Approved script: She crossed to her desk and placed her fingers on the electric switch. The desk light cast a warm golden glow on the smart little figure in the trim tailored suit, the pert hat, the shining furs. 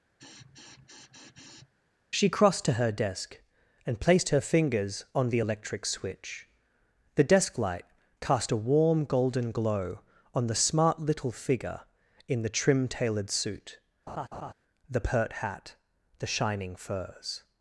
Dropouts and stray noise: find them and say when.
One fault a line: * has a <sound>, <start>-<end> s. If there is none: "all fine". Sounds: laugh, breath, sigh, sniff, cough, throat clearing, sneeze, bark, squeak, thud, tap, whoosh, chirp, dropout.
* has a sniff, 0.2-1.7 s
* has a laugh, 14.1-14.5 s